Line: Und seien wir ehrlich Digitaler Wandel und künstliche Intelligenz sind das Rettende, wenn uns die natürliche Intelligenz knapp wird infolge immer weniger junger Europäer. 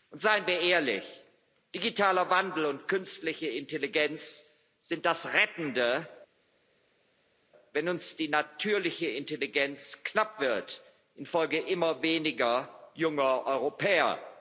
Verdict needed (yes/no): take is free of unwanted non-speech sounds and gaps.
yes